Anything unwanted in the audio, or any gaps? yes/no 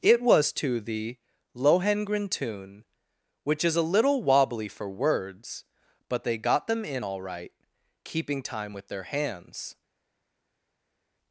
no